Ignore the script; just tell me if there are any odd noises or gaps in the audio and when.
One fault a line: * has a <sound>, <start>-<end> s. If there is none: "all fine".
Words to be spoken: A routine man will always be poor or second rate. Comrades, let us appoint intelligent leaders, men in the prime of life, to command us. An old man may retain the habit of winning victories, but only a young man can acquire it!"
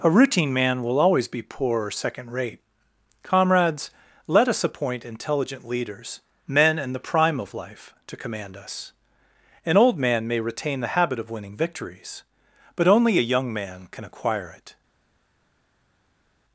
all fine